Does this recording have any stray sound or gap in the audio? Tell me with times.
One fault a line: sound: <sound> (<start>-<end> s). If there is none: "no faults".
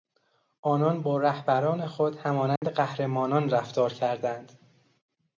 sound: dropout (2.6-2.6 s)